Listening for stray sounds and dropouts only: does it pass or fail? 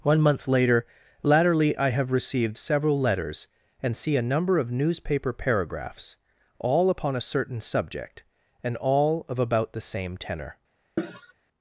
fail